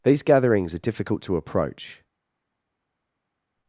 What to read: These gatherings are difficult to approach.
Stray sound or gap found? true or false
false